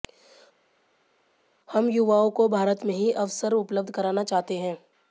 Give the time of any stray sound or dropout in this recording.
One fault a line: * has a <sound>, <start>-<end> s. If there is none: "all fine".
all fine